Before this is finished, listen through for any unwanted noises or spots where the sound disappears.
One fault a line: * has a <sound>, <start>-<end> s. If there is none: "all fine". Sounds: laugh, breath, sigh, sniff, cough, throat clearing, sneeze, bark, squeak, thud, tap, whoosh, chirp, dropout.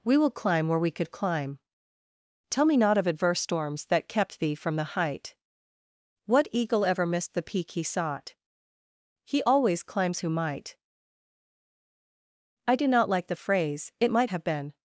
all fine